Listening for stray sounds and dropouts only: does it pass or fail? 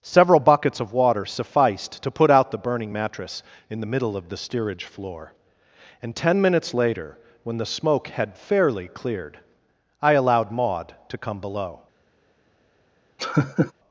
fail